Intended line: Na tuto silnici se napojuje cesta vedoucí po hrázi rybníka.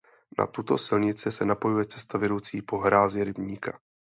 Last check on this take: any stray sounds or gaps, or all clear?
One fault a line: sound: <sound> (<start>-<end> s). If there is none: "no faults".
no faults